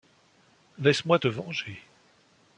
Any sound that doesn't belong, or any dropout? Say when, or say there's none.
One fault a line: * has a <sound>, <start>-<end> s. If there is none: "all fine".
all fine